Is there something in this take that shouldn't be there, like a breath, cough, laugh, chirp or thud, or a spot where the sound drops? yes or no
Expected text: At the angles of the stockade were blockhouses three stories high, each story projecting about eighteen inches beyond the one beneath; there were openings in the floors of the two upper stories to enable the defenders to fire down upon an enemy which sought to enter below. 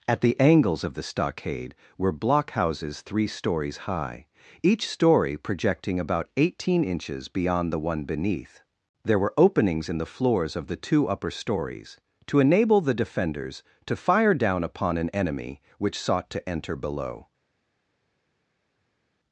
no